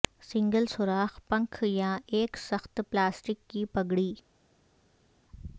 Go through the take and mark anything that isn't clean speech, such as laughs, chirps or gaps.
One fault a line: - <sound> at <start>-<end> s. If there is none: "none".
none